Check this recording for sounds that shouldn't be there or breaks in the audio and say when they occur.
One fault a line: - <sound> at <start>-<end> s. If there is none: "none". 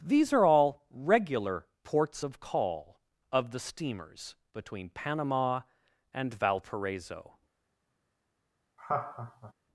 - laugh at 8.8-9.5 s